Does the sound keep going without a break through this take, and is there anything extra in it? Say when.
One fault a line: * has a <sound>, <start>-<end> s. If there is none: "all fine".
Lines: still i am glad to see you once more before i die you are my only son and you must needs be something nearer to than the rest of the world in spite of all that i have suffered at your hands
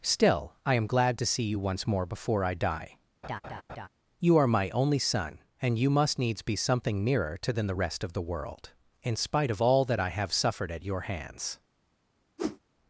* has a laugh, 3.2-3.9 s
* has a whoosh, 12.4-12.6 s